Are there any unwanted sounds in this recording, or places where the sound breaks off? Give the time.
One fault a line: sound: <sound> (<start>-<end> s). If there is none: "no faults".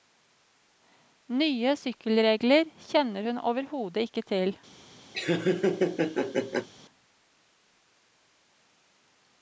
sound: laugh (5.1-6.7 s)